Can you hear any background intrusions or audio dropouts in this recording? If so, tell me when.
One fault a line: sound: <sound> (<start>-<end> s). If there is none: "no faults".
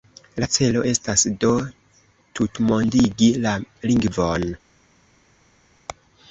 no faults